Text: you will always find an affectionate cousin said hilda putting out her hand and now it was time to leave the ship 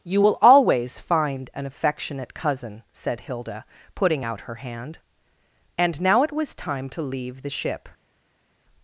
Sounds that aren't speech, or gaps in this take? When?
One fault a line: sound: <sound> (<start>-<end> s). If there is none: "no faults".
no faults